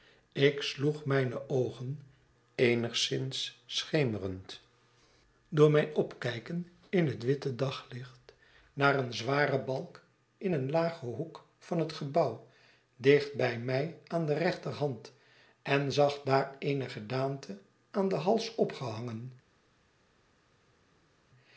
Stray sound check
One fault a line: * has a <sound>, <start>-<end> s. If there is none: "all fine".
all fine